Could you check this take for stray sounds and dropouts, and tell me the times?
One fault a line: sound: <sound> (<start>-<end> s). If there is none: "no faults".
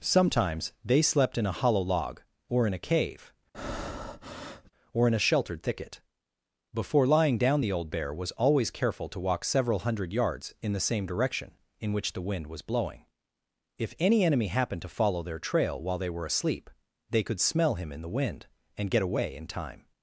sound: breath (3.5-4.7 s)